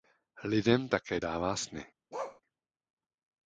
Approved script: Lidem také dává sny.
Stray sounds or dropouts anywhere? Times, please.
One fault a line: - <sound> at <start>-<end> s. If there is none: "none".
- bark at 2.1-2.4 s